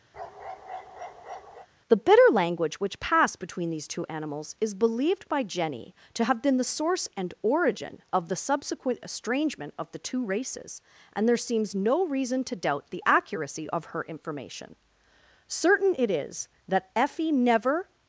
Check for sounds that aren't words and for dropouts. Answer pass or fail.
fail